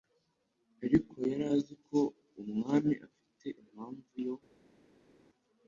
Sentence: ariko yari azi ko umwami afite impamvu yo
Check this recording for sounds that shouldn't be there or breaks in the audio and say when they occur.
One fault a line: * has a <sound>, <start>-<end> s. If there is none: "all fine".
all fine